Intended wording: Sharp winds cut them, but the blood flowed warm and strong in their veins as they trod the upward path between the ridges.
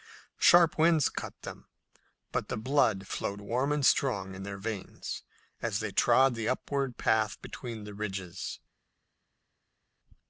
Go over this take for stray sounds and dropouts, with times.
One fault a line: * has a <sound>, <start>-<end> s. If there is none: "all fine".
all fine